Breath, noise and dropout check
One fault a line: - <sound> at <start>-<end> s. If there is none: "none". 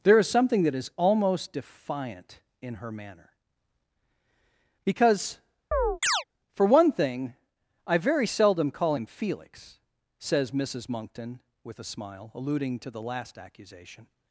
- chirp at 5.7-6.2 s